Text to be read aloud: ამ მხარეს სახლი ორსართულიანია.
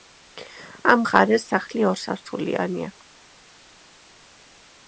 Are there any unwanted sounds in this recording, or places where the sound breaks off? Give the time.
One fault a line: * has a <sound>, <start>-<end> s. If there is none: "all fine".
all fine